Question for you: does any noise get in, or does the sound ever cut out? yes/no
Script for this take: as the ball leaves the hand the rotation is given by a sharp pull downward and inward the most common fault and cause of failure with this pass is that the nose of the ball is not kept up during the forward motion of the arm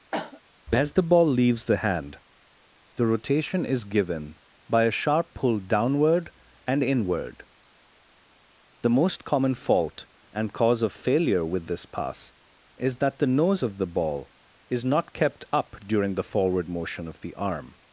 yes